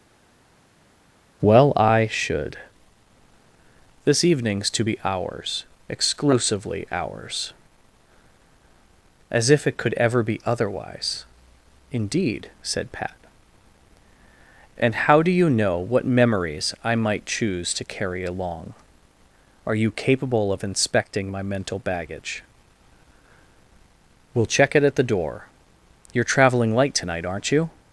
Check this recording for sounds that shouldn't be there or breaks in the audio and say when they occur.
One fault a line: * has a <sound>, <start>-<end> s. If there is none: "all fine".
all fine